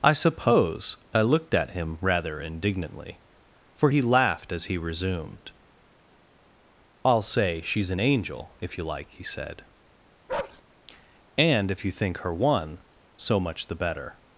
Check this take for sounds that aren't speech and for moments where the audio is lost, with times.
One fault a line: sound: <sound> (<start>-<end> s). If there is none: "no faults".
sound: bark (10.3-10.6 s)